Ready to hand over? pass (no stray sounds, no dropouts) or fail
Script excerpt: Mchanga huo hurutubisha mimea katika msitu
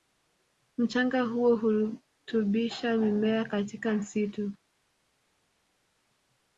pass